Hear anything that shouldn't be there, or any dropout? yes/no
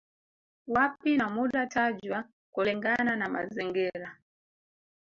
no